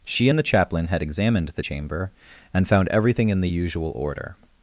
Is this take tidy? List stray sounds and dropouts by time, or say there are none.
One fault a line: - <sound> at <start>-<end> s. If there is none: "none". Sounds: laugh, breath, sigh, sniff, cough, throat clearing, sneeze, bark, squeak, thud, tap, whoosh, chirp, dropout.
none